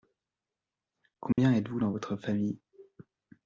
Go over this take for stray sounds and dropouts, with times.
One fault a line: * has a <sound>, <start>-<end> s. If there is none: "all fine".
* has a dropout, 1.3-1.4 s